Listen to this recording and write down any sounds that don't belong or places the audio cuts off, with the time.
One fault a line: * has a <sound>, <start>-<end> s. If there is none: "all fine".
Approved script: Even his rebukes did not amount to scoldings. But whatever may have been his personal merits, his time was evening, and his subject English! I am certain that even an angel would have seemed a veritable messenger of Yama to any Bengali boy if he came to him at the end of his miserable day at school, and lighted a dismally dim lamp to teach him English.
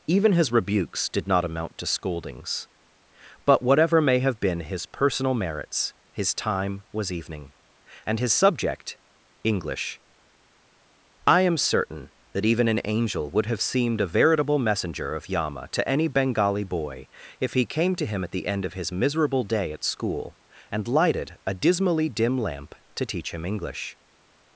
all fine